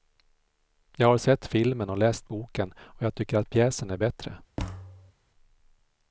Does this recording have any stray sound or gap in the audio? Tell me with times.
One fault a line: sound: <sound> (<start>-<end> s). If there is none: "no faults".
sound: thud (4.6-5.1 s)